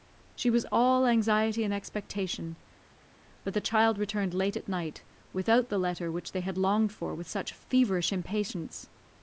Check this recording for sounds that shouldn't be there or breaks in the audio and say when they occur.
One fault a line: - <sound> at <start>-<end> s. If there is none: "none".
none